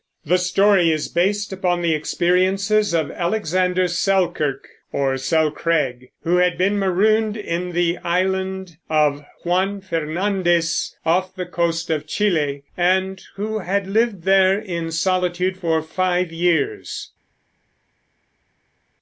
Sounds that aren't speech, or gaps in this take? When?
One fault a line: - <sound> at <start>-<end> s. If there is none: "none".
none